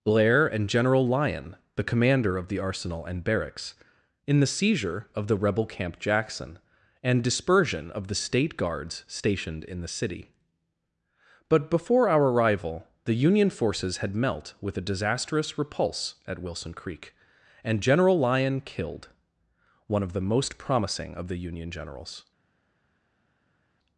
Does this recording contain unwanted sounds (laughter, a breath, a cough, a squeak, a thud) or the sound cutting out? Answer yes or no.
no